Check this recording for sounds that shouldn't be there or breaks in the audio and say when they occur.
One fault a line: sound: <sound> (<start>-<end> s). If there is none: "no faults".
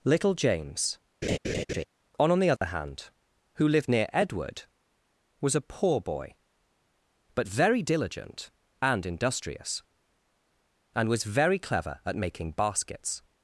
sound: laugh (1.2-1.8 s)
sound: dropout (2.6-2.6 s)